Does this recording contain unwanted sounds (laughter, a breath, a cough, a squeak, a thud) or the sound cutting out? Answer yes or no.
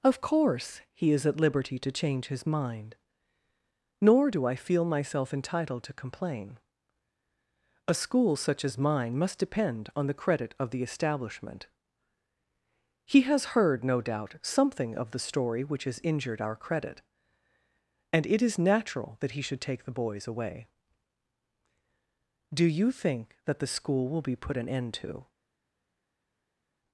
no